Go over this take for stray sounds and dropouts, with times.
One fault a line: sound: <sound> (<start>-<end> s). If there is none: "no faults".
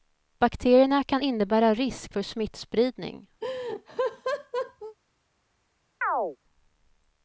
sound: laugh (3.4-5.0 s)
sound: chirp (6.0-6.4 s)